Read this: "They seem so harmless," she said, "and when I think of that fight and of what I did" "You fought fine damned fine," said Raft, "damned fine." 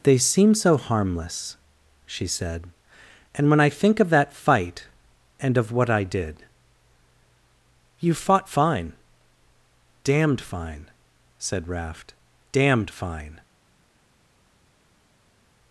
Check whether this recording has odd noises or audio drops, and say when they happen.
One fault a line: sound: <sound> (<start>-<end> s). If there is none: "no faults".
no faults